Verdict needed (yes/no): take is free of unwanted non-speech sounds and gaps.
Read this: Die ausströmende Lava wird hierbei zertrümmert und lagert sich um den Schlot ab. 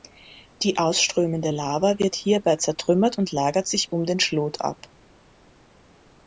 yes